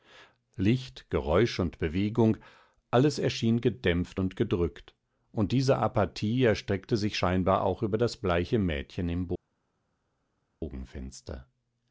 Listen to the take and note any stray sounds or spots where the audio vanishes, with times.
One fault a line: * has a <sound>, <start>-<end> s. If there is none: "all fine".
all fine